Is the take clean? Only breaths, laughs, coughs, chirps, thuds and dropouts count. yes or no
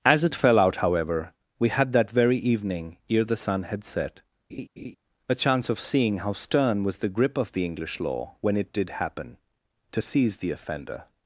no